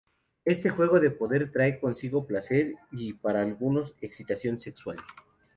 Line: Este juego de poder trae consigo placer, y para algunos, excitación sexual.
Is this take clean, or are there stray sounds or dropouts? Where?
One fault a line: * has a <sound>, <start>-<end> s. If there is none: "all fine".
all fine